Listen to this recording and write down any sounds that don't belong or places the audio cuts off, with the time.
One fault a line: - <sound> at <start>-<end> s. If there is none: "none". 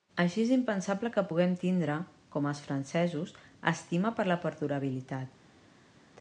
none